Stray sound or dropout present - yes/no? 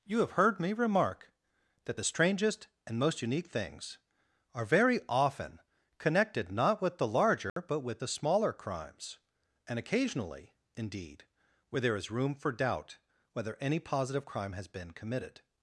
yes